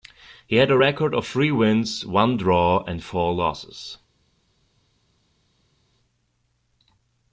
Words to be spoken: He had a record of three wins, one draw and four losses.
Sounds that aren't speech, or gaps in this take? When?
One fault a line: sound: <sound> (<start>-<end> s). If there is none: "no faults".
no faults